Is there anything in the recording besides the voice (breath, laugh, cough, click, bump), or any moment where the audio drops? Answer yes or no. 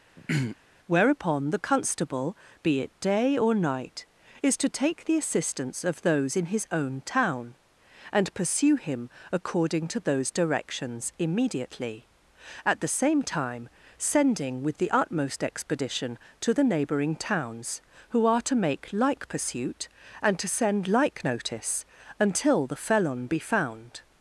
yes